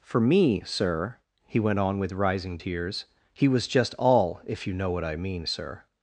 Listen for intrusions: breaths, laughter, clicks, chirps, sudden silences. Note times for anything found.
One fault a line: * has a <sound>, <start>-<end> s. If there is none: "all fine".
all fine